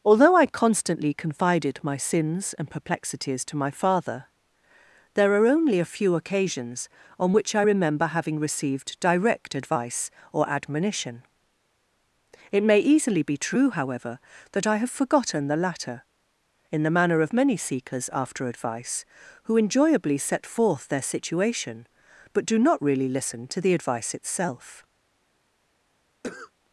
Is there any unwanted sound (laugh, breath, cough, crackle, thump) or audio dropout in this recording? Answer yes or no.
yes